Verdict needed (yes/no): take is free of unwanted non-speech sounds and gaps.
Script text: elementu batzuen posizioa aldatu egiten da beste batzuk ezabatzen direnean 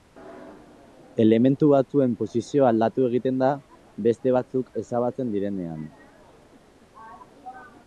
yes